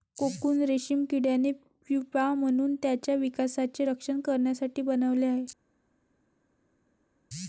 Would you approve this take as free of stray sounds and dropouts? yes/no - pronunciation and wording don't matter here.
yes